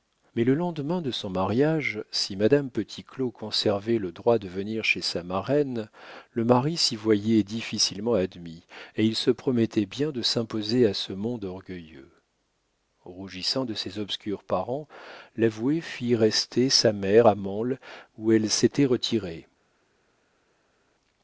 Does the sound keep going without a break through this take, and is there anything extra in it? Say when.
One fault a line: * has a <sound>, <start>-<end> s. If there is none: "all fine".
all fine